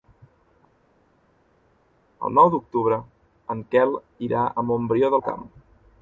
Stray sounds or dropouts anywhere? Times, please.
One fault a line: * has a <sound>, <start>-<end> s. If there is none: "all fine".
all fine